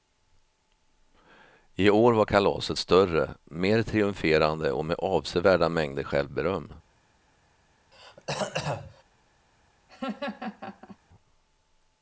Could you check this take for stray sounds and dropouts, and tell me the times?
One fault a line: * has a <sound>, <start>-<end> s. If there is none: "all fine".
* has a throat clearing, 7.9-9.0 s
* has a laugh, 9.9-11.0 s